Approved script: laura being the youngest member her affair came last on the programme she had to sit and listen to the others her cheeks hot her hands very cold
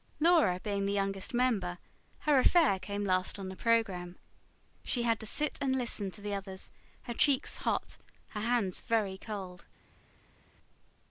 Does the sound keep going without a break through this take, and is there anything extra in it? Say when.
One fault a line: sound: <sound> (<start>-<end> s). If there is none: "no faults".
no faults